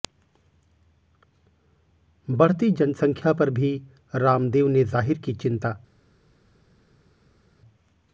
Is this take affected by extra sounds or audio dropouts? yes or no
no